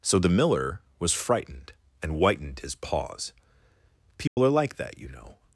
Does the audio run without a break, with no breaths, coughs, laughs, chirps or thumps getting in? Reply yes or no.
no